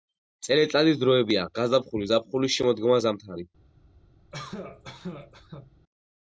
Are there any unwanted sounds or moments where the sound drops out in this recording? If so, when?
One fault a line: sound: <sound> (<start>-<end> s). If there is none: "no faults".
sound: cough (4.3-5.7 s)